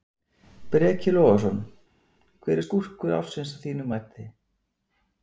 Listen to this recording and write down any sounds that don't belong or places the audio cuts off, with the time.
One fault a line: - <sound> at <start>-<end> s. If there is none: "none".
none